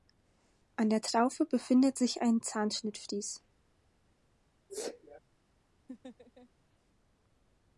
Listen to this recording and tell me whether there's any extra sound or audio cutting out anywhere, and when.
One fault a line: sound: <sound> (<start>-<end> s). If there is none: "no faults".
sound: sneeze (4.7-5.2 s)
sound: laugh (5.9-6.5 s)